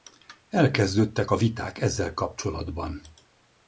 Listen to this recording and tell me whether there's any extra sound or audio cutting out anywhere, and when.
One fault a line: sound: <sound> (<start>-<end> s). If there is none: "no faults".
no faults